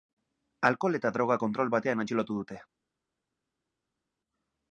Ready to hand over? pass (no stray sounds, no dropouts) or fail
pass